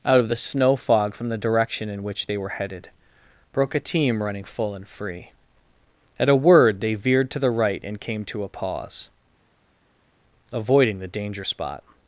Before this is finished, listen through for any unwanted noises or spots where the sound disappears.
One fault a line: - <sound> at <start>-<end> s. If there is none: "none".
none